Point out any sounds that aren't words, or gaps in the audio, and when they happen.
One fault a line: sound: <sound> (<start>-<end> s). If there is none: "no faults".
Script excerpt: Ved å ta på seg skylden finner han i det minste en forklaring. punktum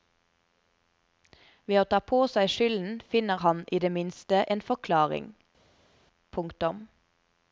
no faults